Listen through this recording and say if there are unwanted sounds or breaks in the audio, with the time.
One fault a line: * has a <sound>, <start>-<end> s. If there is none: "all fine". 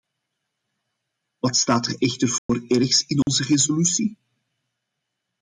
* has a dropout, 2.4-2.5 s
* has a dropout, 3.2-3.3 s